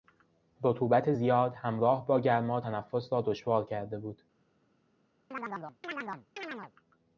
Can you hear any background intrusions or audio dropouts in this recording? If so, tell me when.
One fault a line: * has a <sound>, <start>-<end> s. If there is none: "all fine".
* has a chirp, 5.3-6.7 s